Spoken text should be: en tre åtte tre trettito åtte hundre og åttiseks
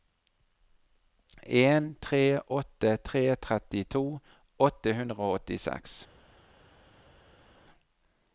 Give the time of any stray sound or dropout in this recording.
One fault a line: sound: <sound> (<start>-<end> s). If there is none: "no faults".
no faults